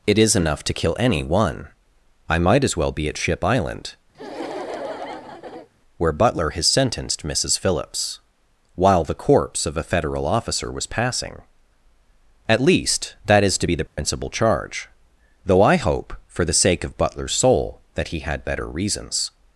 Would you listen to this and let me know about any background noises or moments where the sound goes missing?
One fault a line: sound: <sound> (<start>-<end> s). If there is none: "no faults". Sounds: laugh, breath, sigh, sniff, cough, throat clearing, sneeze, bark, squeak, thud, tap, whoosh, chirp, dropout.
sound: laugh (4.1-5.7 s)
sound: dropout (13.9-14.0 s)